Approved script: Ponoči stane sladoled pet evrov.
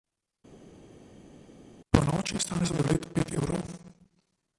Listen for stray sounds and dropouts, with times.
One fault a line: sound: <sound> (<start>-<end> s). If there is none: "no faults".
no faults